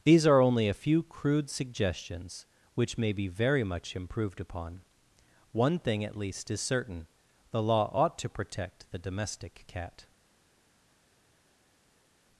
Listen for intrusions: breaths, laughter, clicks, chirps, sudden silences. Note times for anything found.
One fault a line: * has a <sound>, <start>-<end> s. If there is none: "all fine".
all fine